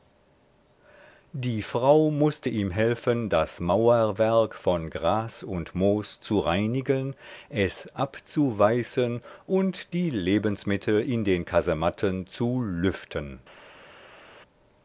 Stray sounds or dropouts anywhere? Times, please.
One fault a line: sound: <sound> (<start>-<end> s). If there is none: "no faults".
no faults